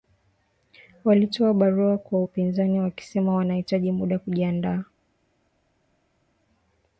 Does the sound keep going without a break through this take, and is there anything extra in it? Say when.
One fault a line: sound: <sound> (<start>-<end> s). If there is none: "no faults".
no faults